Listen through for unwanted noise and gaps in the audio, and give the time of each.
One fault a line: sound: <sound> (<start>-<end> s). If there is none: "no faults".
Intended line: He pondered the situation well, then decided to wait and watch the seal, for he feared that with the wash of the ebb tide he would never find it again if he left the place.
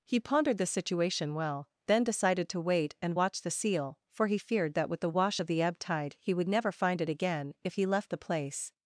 no faults